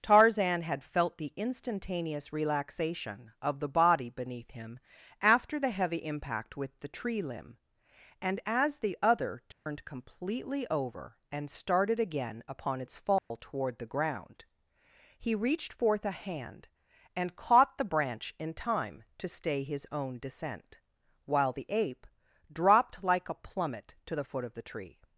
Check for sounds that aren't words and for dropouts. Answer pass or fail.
fail